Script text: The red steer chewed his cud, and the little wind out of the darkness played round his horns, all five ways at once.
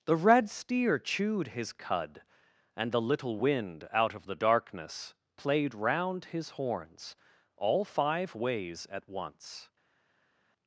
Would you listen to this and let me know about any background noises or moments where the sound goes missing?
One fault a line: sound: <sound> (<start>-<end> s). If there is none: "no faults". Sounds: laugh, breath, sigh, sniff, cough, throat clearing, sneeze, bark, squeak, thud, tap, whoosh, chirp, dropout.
no faults